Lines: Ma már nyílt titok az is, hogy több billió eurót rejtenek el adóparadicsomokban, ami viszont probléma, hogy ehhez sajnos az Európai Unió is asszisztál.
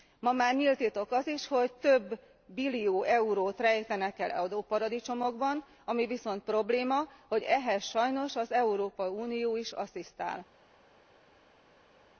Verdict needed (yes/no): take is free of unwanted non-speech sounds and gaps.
yes